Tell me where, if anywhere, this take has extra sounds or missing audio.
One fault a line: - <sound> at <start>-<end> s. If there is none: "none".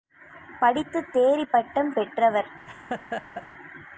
- laugh at 2.7-3.5 s